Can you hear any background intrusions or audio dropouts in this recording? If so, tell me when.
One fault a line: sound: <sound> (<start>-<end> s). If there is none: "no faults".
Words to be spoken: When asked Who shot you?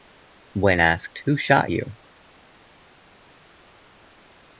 no faults